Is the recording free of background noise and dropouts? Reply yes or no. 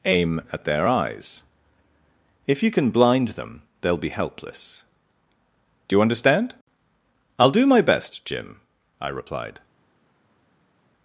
yes